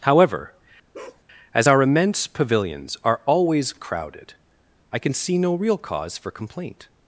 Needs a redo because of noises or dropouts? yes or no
yes